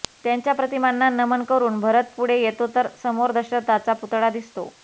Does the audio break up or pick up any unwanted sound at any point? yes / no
no